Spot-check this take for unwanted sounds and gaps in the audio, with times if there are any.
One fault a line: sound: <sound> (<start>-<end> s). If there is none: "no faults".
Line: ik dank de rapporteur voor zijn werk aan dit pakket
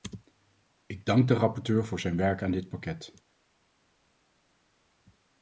no faults